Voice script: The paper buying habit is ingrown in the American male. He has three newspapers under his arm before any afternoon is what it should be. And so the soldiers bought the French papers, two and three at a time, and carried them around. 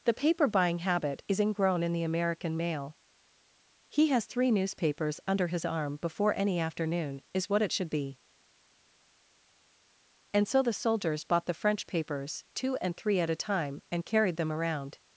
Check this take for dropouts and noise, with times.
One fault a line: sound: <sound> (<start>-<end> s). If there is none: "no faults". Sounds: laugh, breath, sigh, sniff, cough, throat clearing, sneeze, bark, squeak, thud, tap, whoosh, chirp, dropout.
no faults